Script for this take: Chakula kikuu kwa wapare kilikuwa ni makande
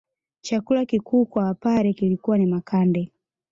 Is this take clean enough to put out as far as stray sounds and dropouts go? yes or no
yes